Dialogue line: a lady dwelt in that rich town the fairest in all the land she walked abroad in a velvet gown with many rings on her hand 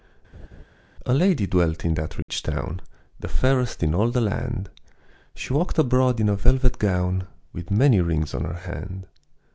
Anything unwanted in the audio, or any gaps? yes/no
yes